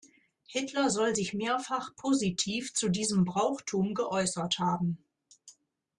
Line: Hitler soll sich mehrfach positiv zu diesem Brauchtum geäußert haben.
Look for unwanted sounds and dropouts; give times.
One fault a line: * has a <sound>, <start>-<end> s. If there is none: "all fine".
all fine